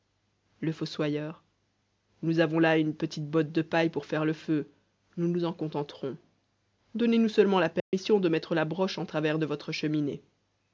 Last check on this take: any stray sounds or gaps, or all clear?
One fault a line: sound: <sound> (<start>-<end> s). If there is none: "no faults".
sound: dropout (7.8-7.9 s)